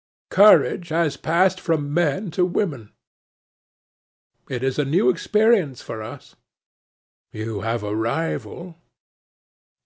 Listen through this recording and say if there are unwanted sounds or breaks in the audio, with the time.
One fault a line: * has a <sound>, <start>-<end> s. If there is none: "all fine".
all fine